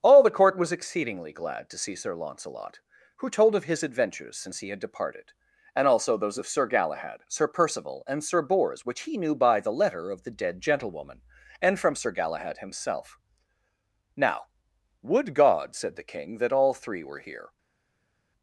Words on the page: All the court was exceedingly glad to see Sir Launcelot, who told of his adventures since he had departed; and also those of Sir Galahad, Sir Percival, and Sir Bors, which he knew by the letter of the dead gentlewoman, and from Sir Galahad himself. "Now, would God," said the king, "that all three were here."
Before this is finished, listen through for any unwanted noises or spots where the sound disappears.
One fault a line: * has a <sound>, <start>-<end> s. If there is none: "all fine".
all fine